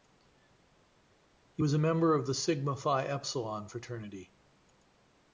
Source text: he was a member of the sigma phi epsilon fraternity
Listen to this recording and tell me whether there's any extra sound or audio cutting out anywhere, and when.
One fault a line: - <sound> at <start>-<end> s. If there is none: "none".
none